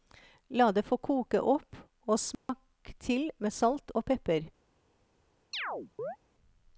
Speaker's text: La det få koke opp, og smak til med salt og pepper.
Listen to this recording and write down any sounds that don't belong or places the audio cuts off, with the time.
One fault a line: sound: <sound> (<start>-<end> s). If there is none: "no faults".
sound: dropout (2.3-2.5 s)
sound: chirp (5.5-6.2 s)